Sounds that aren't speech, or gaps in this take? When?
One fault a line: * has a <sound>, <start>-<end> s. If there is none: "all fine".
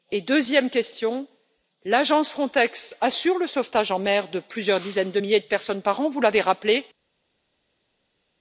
all fine